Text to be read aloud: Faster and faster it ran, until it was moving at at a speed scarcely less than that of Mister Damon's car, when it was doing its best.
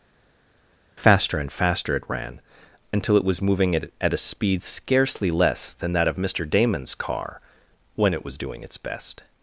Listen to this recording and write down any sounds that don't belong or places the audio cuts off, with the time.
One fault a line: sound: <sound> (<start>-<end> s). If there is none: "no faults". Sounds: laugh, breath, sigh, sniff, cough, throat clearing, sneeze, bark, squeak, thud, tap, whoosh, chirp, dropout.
no faults